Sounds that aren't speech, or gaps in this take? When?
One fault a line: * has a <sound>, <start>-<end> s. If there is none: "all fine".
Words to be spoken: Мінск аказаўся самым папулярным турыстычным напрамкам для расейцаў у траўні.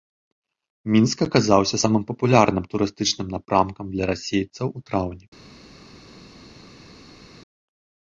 all fine